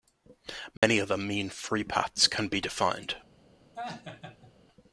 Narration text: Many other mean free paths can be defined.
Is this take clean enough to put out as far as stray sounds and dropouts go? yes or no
no